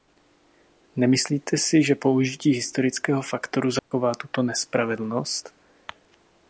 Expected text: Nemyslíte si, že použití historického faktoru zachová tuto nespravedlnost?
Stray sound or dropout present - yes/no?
yes